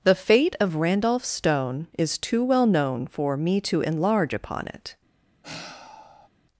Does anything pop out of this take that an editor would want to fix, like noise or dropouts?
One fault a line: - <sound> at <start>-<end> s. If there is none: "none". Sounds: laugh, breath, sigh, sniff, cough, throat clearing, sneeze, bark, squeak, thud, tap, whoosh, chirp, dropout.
- sigh at 5.4-6.3 s